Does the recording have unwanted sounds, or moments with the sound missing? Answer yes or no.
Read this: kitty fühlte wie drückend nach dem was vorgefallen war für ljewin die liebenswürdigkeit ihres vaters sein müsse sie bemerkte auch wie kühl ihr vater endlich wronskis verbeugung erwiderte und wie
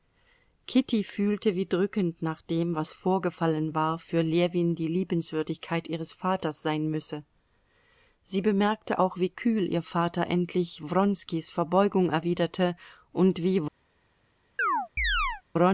yes